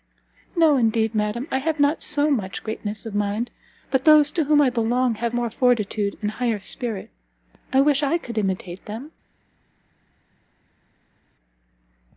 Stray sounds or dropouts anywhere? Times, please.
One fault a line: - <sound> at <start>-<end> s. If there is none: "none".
none